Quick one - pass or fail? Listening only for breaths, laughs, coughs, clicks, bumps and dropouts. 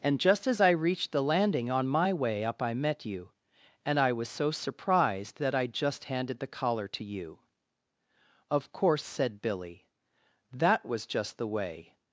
pass